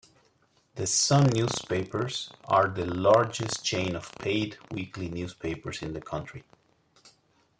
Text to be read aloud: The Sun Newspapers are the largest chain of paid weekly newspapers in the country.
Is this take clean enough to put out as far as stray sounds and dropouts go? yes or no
yes